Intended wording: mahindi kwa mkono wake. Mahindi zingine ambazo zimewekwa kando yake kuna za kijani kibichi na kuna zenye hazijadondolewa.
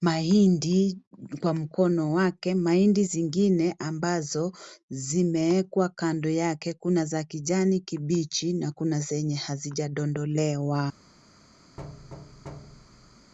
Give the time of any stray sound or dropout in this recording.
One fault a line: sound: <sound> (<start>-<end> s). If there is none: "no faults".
sound: thud (11.8-13.3 s)